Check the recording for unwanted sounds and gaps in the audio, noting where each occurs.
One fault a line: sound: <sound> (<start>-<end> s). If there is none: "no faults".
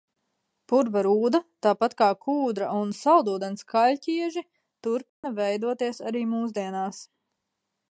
sound: dropout (5.1-5.2 s)